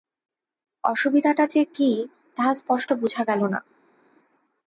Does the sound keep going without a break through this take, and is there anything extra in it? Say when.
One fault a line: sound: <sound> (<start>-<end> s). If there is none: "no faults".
no faults